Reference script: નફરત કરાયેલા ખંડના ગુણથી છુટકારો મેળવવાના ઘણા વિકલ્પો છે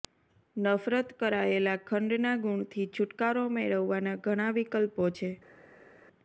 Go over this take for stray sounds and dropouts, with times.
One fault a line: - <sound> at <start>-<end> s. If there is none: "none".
none